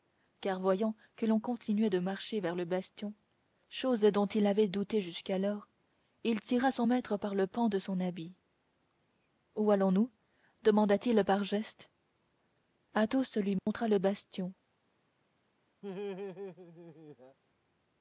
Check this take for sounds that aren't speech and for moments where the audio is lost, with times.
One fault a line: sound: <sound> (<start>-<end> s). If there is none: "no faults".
sound: dropout (13.6-13.7 s)
sound: laugh (15.8-17.4 s)